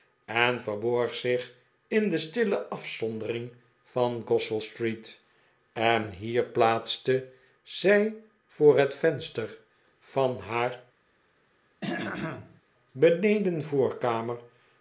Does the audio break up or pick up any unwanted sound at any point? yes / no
yes